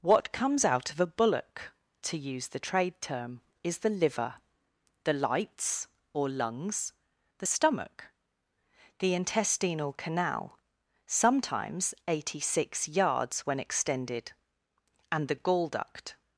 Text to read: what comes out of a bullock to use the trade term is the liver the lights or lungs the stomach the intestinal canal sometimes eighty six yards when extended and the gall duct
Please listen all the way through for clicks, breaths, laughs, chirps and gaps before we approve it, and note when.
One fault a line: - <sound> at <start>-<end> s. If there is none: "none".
none